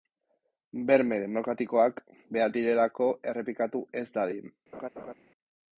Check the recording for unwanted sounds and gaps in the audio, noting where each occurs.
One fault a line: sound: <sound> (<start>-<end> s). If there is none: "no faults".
sound: laugh (4.7-5.1 s)